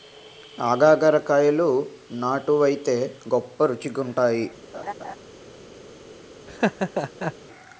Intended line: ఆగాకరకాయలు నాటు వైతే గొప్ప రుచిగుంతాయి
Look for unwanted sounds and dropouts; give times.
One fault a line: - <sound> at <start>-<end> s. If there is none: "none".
- laugh at 4.7-5.2 s
- laugh at 6.5-7.3 s